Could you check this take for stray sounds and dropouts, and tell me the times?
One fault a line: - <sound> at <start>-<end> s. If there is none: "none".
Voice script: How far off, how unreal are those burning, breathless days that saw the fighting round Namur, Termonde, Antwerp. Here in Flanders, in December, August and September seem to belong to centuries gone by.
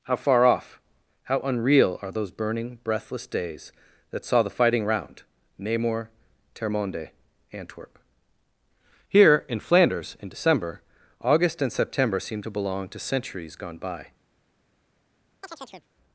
- chirp at 15.4-15.9 s